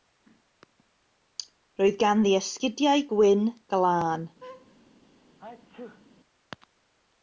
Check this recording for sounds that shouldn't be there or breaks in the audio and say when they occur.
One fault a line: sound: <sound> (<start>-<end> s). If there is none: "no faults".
sound: laugh (4.4-4.8 s)
sound: sneeze (5.4-6.1 s)